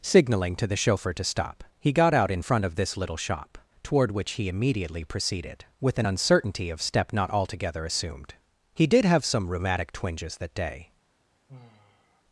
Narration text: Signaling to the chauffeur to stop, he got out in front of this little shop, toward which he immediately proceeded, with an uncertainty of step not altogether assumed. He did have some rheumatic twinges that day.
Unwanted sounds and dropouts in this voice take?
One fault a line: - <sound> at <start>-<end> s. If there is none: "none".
- sigh at 11.5-12.2 s